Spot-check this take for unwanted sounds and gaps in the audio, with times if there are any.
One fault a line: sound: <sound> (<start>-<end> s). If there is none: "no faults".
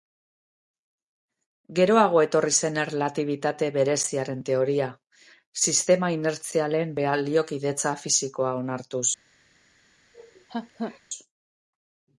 sound: laugh (10.1-11.0 s)